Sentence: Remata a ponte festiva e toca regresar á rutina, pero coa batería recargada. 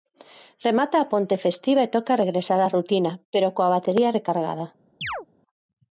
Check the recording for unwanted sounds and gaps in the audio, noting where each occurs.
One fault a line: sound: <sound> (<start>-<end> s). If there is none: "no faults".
sound: chirp (5.0-5.3 s)